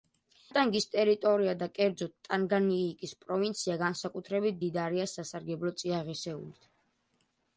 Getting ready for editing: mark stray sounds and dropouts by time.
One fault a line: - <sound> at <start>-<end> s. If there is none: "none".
none